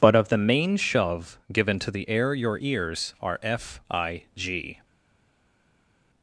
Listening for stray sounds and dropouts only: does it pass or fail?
pass